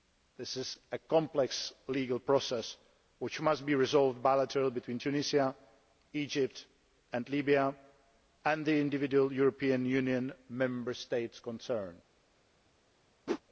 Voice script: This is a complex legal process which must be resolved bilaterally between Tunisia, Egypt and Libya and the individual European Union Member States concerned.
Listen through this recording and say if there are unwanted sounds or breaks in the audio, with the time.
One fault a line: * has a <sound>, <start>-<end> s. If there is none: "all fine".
* has a whoosh, 13.3-13.4 s